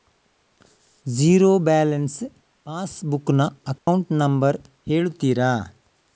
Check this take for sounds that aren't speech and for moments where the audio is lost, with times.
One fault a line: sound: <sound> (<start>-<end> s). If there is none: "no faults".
sound: dropout (3.8-3.9 s)